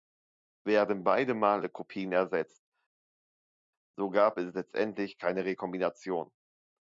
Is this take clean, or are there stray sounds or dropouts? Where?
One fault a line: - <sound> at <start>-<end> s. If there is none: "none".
none